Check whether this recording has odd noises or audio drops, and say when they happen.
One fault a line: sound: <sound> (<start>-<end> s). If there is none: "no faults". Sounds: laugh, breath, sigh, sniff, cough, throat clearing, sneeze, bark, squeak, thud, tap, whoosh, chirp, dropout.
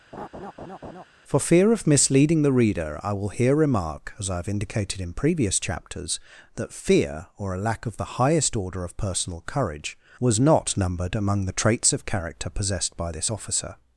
sound: laugh (0.1-1.0 s)